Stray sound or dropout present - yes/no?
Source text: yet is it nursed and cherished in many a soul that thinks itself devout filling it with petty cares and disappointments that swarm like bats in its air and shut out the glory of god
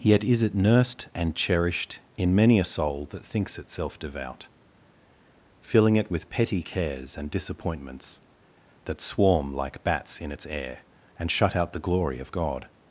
no